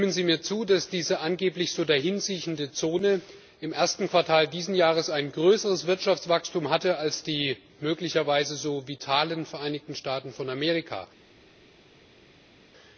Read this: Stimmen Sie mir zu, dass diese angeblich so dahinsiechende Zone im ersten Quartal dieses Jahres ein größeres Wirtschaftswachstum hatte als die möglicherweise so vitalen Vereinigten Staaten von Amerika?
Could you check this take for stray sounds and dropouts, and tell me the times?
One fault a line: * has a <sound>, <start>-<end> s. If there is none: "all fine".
all fine